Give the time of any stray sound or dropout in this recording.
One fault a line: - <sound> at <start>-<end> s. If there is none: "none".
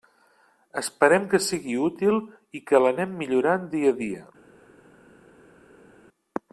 none